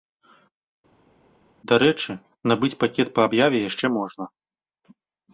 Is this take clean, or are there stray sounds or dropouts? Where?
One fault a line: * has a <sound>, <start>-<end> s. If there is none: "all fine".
all fine